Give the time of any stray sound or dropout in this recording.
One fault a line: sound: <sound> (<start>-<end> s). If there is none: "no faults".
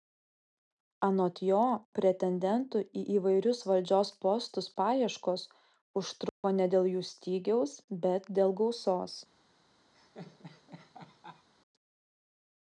sound: dropout (6.3-6.4 s)
sound: laugh (9.9-11.5 s)